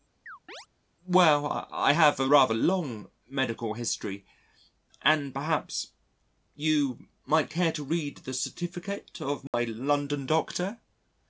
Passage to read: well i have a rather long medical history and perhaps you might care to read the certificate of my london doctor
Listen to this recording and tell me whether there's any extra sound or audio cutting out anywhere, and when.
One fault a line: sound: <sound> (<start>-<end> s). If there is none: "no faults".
sound: chirp (0.3-0.7 s)
sound: dropout (9.5-9.5 s)